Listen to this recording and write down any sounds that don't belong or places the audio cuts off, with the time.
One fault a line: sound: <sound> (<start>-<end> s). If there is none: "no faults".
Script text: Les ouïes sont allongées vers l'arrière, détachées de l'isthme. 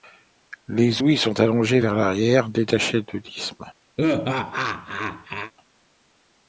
sound: laugh (4.0-5.5 s)